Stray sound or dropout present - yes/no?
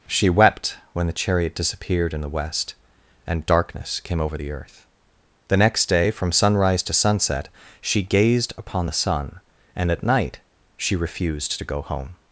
no